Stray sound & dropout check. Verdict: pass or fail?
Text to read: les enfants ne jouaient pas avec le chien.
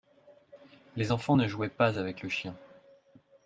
pass